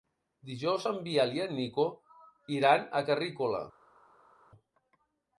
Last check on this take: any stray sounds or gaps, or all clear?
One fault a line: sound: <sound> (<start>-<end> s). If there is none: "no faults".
no faults